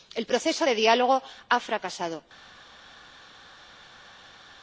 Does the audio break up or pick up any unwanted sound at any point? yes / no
no